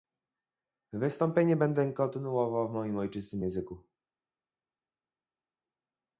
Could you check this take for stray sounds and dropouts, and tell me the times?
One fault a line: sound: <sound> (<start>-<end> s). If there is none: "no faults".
no faults